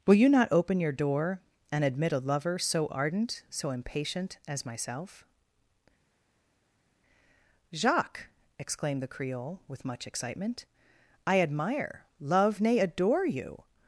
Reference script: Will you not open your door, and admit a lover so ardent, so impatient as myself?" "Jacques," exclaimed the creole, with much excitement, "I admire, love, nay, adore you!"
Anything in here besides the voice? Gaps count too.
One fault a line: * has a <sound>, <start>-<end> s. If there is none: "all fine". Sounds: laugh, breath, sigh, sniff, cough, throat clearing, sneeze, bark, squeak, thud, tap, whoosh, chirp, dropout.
all fine